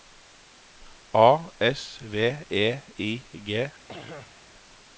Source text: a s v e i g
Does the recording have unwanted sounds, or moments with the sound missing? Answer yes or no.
yes